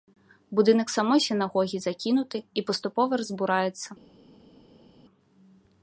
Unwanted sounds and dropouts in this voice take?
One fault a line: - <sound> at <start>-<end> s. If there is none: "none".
none